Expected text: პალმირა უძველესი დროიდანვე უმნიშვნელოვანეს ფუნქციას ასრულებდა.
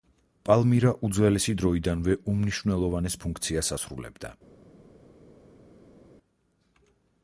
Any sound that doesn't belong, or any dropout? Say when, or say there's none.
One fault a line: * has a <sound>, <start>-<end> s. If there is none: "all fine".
all fine